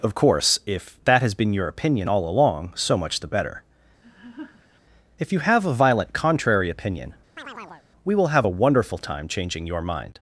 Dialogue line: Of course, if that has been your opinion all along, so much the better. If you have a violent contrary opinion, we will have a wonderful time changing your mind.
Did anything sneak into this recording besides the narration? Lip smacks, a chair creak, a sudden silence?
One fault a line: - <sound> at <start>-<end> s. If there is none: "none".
- laugh at 4.0-4.8 s
- chirp at 7.4-7.9 s